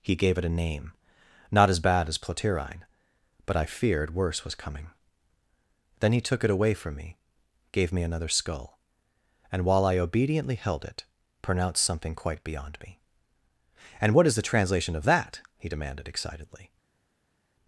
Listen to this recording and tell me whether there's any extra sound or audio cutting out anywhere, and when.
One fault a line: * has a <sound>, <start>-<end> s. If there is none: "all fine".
all fine